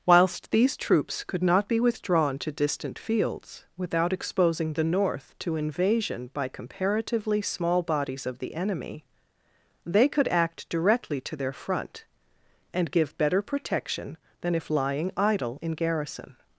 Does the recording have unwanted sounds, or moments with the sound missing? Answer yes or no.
no